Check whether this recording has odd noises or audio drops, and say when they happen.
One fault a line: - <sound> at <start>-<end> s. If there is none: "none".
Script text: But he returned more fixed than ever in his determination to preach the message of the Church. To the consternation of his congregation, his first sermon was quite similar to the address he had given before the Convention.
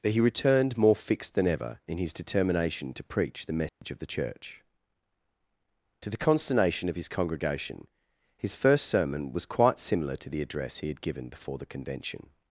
- dropout at 3.7-3.8 s